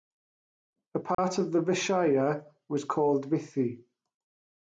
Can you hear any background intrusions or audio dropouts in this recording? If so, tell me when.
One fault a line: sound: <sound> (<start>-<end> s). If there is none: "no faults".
sound: dropout (1.1-1.2 s)